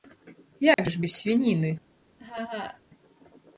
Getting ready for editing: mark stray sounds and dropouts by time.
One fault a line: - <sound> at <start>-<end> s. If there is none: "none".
- dropout at 0.7-0.8 s
- laugh at 2.2-2.8 s